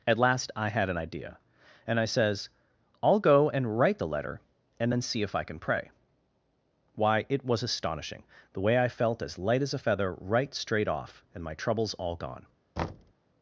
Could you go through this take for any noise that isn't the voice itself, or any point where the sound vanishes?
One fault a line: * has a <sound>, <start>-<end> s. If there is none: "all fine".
* has a thud, 12.8-13.1 s